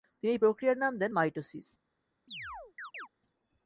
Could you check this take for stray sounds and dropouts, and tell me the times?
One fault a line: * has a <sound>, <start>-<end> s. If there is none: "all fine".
* has a chirp, 2.3-3.1 s